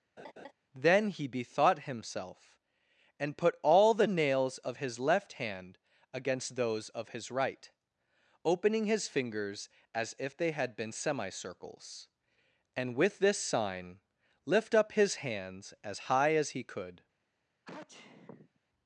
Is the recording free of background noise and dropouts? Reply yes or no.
no